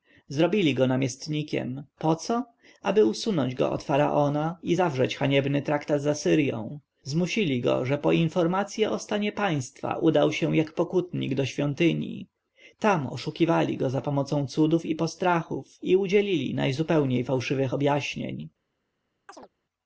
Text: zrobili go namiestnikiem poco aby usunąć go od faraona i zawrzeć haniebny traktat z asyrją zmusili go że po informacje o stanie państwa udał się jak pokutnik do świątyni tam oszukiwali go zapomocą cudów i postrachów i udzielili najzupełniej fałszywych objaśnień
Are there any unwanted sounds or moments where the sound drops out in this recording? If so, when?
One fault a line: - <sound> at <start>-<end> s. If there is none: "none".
- chirp at 19.3-19.5 s